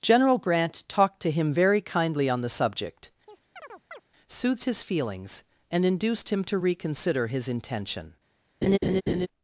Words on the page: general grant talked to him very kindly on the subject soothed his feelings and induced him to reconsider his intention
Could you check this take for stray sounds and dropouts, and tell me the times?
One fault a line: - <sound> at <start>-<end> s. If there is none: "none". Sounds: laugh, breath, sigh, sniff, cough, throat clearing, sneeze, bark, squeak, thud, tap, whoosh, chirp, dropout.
- chirp at 3.3-4.0 s
- laugh at 8.6-9.3 s